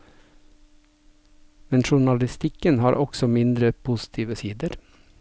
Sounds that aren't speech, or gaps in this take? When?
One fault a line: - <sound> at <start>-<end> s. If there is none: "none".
none